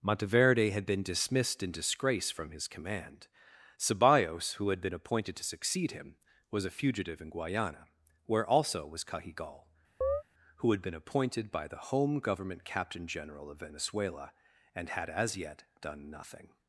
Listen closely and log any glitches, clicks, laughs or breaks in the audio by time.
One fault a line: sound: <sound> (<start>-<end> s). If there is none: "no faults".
sound: chirp (10.0-10.2 s)